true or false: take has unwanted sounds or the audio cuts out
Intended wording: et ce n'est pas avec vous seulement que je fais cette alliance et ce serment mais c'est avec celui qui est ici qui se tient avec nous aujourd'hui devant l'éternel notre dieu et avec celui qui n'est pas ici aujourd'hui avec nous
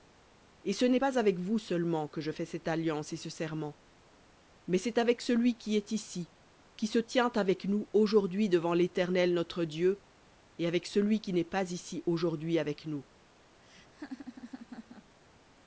true